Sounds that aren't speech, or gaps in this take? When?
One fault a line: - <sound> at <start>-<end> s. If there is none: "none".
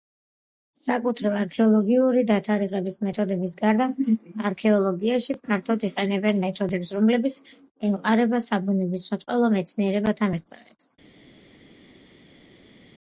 none